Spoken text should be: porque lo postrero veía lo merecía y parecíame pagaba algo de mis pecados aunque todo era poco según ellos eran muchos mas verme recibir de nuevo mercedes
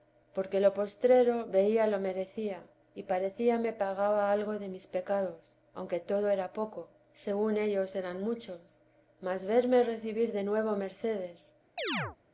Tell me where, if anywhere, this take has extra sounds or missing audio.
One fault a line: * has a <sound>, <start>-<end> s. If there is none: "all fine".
* has a chirp, 11.8-12.2 s